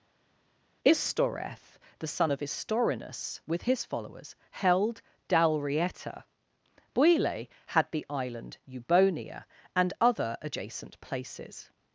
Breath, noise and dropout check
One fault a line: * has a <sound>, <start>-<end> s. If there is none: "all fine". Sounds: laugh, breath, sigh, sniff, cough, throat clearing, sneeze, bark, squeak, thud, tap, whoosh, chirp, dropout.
all fine